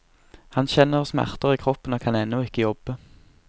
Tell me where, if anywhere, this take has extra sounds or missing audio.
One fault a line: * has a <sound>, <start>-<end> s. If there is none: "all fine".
all fine